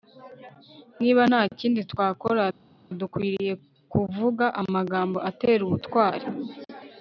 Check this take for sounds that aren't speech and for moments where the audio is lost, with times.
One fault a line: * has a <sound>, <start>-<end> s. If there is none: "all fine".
all fine